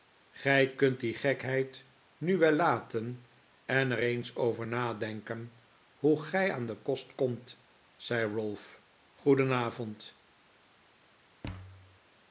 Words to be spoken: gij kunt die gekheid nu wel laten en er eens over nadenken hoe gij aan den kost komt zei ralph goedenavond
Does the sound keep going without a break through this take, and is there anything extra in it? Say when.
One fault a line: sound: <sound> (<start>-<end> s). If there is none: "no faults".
sound: thud (11.4-12.0 s)